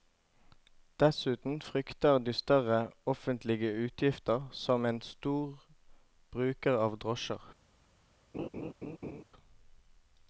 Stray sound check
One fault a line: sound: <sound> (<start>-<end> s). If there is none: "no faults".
sound: laugh (8.3-9.2 s)